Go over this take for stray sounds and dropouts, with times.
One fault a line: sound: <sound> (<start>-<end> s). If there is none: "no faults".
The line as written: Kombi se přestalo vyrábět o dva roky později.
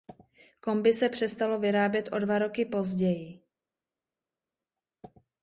no faults